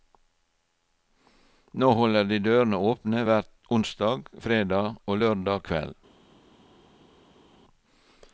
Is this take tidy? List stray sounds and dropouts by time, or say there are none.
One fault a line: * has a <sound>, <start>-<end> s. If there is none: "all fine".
all fine